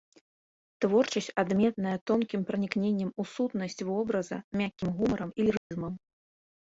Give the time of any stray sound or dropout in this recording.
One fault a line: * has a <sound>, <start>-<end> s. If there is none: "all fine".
* has a dropout, 5.6-5.7 s